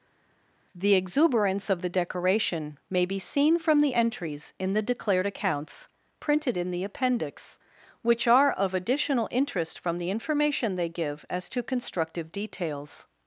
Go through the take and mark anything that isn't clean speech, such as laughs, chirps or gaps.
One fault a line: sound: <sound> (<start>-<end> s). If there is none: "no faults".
no faults